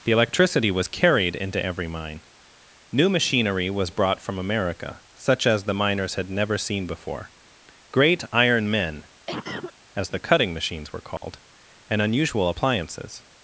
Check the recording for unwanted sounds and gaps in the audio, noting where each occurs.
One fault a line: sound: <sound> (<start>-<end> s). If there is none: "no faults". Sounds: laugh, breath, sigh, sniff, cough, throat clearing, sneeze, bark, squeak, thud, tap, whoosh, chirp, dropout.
sound: cough (9.3-9.7 s)
sound: dropout (11.2-11.2 s)